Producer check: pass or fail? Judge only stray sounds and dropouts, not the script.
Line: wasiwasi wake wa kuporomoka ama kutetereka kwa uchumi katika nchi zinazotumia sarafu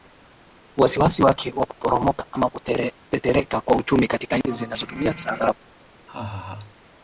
fail